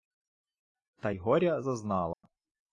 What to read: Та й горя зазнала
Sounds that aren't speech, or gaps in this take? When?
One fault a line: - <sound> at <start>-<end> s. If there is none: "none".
- dropout at 2.1-2.2 s